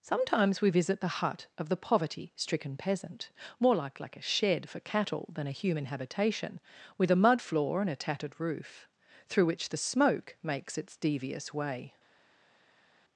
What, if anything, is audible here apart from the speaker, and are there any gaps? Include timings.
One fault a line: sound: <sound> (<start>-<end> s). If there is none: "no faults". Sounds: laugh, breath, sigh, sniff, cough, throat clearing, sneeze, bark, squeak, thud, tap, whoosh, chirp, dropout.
no faults